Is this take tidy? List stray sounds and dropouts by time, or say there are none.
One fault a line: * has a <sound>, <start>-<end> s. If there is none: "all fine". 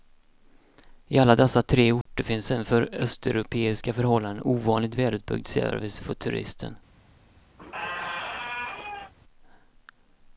* has a dropout, 2.0-2.1 s
* has a squeak, 7.6-9.1 s